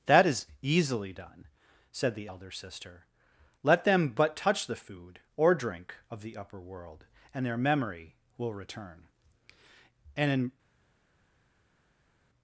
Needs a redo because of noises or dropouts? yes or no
no